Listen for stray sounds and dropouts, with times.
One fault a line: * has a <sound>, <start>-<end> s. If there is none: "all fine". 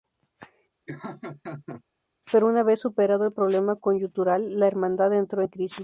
* has a laugh, 0.9-1.8 s